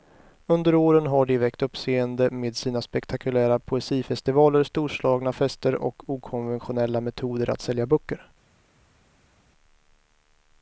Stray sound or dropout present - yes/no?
no